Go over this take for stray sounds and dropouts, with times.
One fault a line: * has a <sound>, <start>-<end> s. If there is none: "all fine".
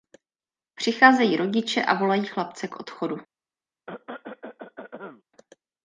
* has a cough, 3.9-5.2 s